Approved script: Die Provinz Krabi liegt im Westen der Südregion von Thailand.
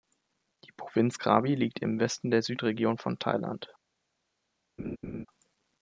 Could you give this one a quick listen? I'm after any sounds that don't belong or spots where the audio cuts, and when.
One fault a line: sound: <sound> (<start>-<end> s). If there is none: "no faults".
sound: laugh (4.8-5.3 s)